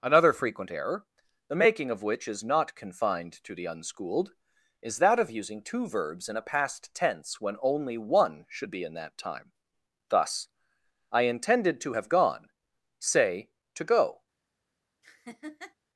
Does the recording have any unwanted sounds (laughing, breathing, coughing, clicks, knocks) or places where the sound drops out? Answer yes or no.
yes